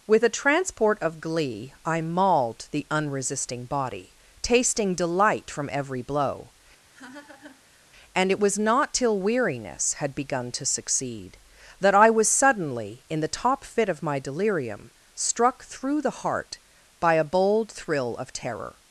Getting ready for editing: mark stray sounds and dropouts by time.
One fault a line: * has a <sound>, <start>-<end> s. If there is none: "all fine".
* has a laugh, 6.9-7.8 s